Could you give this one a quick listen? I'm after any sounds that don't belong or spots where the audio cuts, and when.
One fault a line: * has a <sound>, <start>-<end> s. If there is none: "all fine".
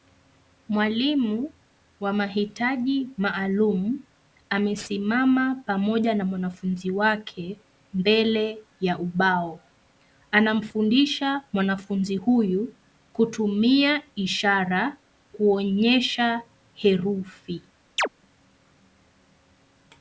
* has a chirp, 18.0-18.1 s